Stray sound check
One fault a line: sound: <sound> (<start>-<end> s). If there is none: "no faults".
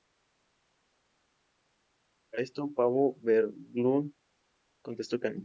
no faults